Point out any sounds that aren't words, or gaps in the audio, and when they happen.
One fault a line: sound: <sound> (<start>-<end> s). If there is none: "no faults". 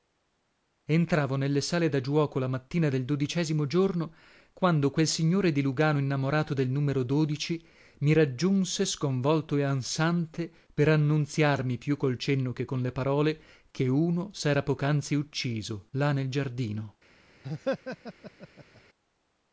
sound: laugh (17.4-18.8 s)